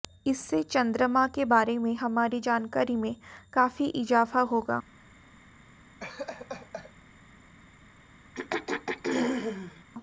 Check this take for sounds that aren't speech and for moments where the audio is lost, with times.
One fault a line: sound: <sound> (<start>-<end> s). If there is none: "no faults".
sound: laugh (6.0-6.9 s)
sound: throat clearing (8.3-9.8 s)